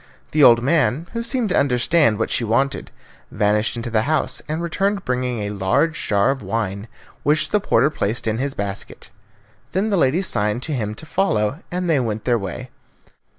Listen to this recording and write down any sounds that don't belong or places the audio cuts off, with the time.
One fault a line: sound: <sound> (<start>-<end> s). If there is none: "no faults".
no faults